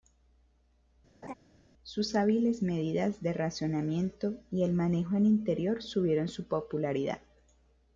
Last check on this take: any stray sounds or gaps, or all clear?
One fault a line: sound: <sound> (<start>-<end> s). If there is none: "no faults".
sound: laugh (1.2-1.3 s)